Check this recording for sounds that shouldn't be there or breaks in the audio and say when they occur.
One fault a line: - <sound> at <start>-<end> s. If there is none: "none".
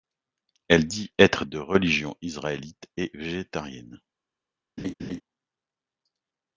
- laugh at 4.8-5.2 s